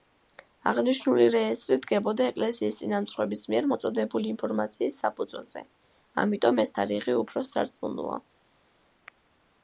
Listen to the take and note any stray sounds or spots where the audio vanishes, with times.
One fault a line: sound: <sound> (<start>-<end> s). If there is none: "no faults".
no faults